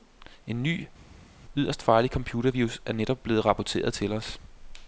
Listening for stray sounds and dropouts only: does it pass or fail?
pass